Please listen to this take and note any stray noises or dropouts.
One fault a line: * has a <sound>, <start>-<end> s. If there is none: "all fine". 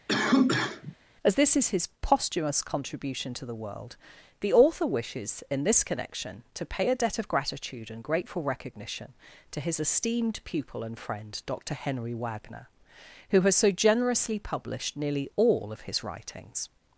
* has a cough, 0.1-1.0 s